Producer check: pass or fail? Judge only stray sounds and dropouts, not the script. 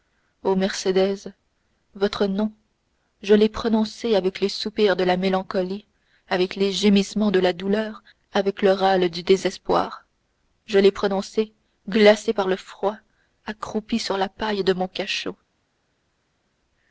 pass